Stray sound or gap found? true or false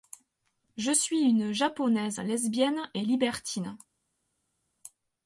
false